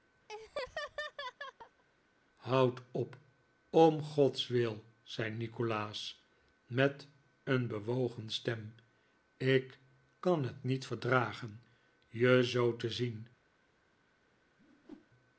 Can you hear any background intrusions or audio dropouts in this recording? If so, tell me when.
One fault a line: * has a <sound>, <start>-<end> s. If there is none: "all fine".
* has a laugh, 0.3-1.8 s
* has a whoosh, 14.6-15.1 s